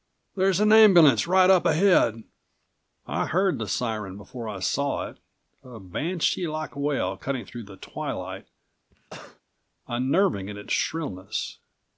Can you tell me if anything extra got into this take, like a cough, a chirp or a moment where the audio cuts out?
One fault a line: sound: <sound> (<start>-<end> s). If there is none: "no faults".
sound: cough (8.9-9.4 s)